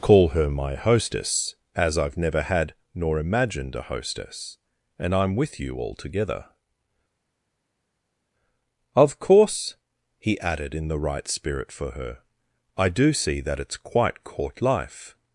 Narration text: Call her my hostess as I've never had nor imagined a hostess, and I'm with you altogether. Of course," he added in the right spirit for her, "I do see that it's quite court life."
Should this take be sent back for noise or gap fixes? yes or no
no